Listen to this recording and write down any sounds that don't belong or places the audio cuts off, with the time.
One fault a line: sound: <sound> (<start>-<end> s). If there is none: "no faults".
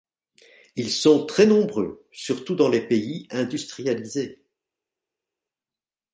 no faults